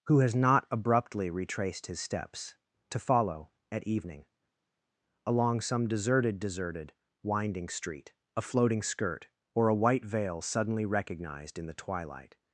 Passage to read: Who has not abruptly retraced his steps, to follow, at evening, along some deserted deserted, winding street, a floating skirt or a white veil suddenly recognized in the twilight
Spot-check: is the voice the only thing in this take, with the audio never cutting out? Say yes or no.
yes